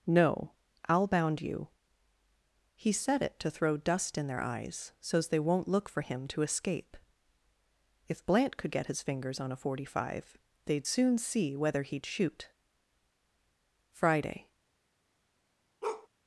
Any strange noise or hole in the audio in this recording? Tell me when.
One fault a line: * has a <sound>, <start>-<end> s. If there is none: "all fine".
* has a bark, 15.8-16.1 s